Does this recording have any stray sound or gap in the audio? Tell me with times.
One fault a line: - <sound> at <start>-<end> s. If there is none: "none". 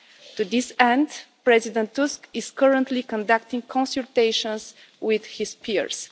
none